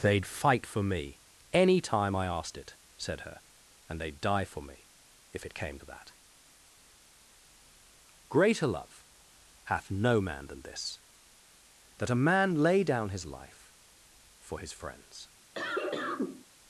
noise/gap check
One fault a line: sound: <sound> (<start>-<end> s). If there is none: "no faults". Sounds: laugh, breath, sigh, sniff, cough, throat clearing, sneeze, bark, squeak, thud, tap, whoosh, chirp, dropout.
sound: cough (15.5-16.5 s)